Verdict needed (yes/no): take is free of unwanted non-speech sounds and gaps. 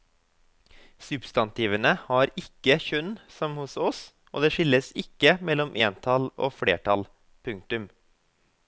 yes